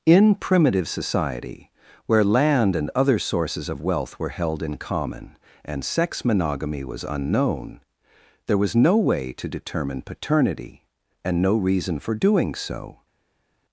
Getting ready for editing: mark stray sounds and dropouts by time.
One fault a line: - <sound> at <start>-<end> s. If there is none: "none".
none